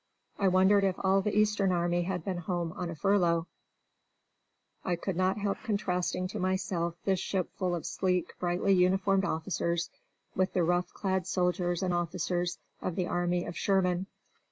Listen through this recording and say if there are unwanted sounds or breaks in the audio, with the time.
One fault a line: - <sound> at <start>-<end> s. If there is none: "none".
none